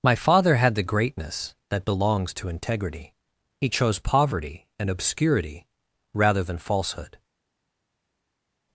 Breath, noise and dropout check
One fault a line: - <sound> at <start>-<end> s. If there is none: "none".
none